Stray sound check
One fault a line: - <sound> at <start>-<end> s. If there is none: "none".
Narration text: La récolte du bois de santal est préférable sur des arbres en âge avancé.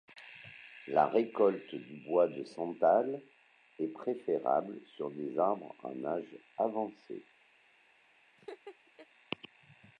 - laugh at 8.4-9.1 s